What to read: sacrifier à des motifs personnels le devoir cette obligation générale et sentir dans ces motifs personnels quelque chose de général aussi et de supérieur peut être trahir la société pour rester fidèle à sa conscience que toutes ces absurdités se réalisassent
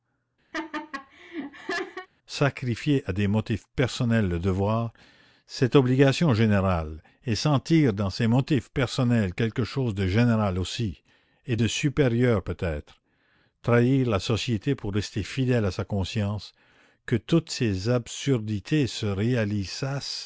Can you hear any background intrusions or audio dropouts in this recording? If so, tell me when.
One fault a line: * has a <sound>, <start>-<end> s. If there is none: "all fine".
* has a laugh, 0.5-2.1 s